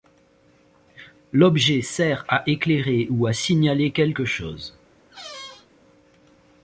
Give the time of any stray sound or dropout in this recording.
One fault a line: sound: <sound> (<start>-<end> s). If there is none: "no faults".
sound: squeak (5.1-5.7 s)